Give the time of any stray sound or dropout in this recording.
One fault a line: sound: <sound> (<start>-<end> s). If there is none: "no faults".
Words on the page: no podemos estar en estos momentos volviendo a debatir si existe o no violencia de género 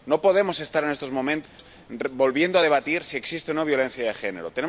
sound: dropout (1.5-1.6 s)